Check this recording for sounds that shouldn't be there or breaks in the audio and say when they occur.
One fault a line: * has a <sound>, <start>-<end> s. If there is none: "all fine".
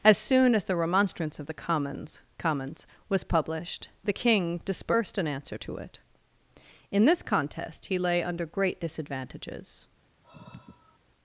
* has a sigh, 10.2-11.0 s